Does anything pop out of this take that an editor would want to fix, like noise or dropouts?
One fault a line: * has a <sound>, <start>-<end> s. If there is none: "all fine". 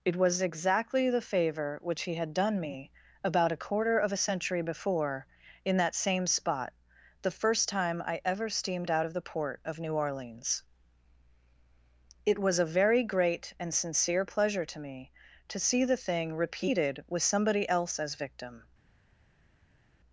all fine